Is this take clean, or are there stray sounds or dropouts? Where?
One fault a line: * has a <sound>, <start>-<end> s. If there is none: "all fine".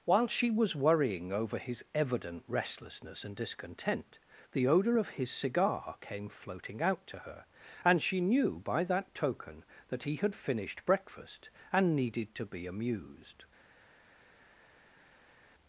all fine